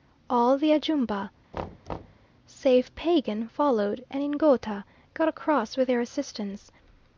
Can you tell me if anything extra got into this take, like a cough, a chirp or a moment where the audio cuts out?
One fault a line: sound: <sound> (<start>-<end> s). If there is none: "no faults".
sound: thud (1.5-2.3 s)